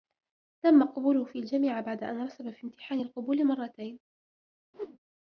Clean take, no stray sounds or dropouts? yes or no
no